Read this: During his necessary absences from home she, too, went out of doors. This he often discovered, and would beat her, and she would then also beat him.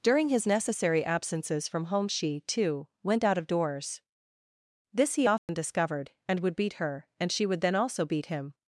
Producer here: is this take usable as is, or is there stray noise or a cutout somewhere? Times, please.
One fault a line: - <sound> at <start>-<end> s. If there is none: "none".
- dropout at 5.4-5.5 s